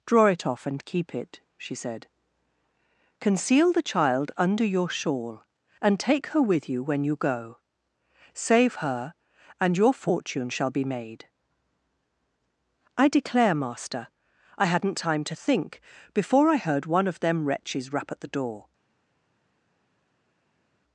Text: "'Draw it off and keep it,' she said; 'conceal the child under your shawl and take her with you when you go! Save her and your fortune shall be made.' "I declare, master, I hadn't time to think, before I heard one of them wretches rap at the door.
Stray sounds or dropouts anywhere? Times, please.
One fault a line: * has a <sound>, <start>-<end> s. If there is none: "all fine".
all fine